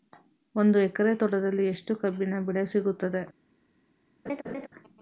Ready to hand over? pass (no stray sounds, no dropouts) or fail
fail